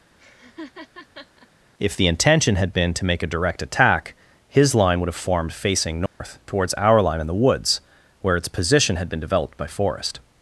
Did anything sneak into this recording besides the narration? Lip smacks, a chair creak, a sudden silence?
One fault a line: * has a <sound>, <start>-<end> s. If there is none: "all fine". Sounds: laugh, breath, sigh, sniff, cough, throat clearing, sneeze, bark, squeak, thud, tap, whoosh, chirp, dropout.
* has a laugh, 0.2-1.5 s
* has a dropout, 6.1-6.2 s